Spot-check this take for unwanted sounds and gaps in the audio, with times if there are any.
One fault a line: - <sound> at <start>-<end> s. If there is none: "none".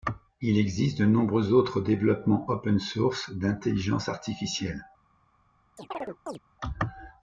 - chirp at 5.8-6.4 s